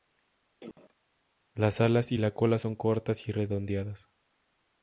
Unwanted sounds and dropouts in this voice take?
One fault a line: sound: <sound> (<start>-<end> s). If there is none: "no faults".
sound: cough (0.6-0.9 s)